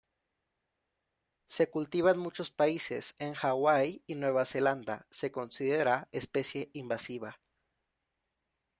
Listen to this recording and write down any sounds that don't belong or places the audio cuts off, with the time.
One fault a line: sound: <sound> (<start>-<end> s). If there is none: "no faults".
no faults